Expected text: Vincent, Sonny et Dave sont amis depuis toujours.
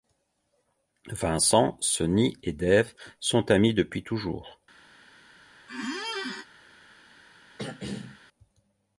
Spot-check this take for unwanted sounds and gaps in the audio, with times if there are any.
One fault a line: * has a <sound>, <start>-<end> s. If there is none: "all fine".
* has a squeak, 5.7-6.5 s
* has a throat clearing, 7.6-8.2 s